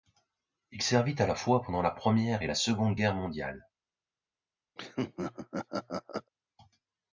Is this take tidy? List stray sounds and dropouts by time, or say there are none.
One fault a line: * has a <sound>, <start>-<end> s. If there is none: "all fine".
* has a laugh, 4.8-6.3 s